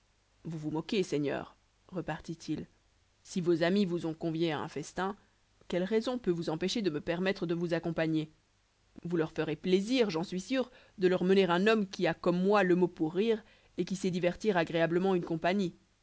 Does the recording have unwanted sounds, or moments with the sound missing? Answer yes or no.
no